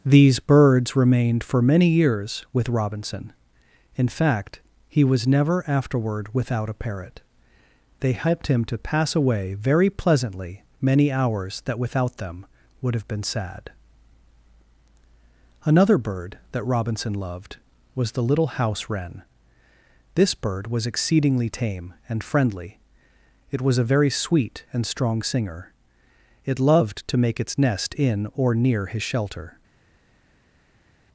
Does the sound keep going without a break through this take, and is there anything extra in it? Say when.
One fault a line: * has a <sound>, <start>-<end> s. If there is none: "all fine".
all fine